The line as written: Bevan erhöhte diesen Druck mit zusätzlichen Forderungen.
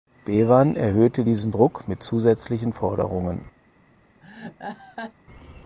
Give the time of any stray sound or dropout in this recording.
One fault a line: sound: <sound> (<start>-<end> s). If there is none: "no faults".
sound: laugh (4.2-5.1 s)